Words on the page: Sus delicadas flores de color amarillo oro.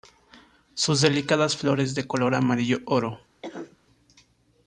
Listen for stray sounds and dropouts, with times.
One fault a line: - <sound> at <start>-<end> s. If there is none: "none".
- cough at 3.4-3.8 s